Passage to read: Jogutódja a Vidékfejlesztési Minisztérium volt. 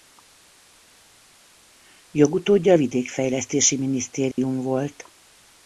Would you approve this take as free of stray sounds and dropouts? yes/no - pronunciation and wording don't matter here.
no